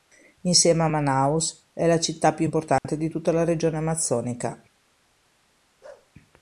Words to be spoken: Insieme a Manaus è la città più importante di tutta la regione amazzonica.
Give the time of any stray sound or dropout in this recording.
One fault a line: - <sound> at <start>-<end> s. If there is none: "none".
- dropout at 2.8-2.8 s
- bark at 5.8-6.1 s